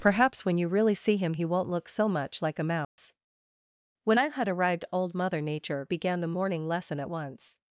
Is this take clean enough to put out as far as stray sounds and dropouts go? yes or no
no